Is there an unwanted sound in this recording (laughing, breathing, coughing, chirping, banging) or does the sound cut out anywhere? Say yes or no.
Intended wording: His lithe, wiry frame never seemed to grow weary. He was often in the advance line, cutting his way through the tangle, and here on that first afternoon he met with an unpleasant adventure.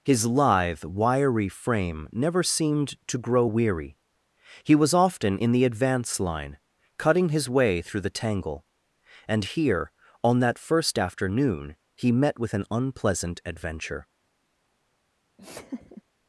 yes